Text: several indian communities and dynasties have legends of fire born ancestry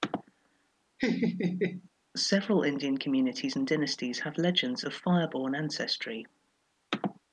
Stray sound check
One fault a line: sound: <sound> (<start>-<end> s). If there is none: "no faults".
sound: laugh (1.0-1.9 s)